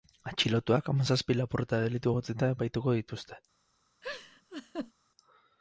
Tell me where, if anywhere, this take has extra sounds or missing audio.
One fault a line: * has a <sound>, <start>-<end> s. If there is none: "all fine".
* has a laugh, 4.0-4.9 s